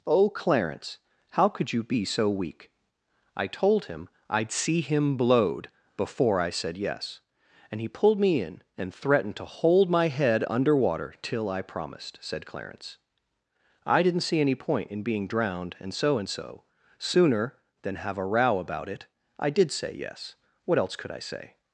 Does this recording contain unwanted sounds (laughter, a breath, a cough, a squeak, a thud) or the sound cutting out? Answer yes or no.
no